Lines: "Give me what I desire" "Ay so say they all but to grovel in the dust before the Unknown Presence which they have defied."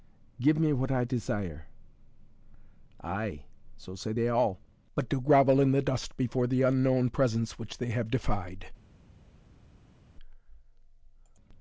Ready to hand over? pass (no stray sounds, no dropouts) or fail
pass